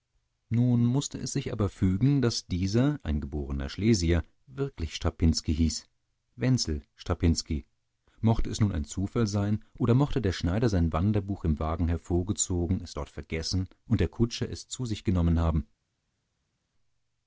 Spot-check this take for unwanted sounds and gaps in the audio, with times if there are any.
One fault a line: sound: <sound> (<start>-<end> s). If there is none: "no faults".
no faults